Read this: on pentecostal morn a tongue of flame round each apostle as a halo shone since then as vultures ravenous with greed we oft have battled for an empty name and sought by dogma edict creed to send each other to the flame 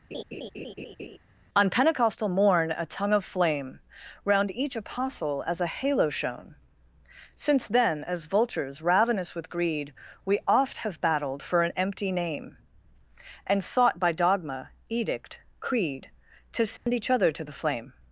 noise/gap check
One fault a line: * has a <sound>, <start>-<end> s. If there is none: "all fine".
* has a laugh, 0.1-1.2 s
* has a dropout, 16.8-16.9 s